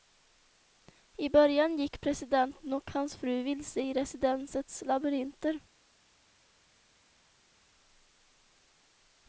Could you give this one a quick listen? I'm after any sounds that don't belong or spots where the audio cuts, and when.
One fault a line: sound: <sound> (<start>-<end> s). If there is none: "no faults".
no faults